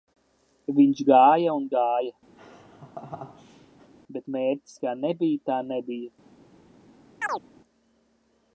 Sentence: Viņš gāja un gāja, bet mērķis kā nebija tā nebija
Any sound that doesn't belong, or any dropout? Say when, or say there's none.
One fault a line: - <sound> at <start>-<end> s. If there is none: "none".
- laugh at 2.4-3.9 s
- chirp at 7.2-7.4 s